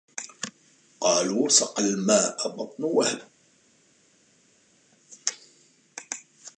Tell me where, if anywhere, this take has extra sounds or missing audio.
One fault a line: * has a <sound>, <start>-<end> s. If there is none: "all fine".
all fine